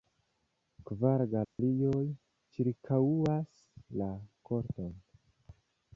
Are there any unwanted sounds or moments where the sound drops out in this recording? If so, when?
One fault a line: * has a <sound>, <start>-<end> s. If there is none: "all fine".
* has a dropout, 1.4-1.6 s